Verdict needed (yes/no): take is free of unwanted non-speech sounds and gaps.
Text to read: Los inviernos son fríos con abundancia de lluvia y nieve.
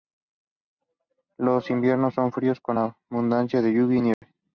no